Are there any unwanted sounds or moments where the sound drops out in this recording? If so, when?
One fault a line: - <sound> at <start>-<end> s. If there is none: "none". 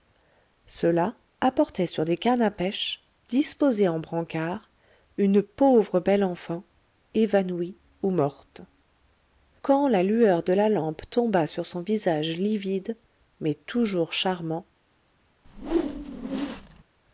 - whoosh at 15.4-16.8 s